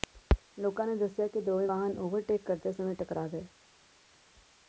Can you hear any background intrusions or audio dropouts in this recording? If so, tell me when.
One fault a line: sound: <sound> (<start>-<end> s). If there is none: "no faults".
no faults